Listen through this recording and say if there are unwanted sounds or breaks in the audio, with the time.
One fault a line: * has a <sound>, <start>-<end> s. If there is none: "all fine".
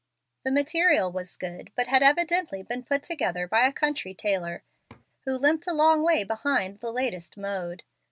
* has a laugh, 4.9-5.1 s